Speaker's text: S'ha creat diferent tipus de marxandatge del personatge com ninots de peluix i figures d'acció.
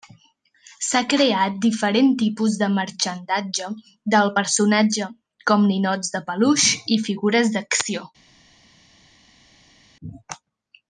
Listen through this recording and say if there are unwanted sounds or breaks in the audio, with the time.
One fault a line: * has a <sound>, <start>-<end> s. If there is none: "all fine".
all fine